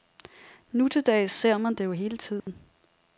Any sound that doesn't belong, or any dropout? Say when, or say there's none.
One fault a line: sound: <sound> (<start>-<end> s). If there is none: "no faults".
sound: dropout (2.4-2.5 s)